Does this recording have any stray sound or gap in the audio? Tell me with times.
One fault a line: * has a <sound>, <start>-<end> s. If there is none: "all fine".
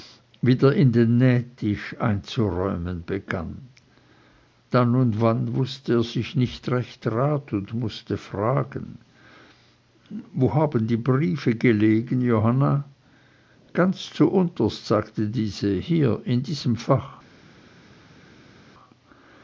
all fine